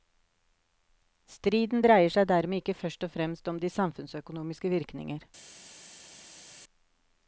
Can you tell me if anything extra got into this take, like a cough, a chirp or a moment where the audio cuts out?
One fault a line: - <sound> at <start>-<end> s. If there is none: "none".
none